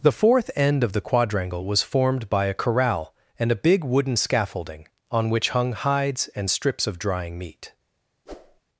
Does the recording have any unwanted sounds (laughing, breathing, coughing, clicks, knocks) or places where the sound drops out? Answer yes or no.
yes